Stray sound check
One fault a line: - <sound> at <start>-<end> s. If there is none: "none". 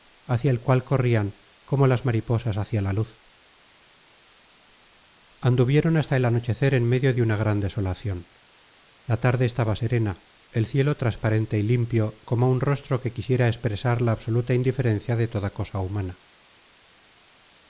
none